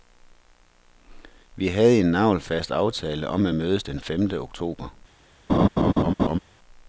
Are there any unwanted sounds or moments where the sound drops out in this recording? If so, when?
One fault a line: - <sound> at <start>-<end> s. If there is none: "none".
- laugh at 5.5-6.4 s